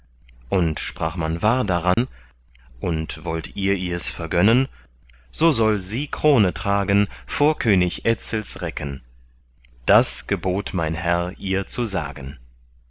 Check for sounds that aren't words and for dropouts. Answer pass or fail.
fail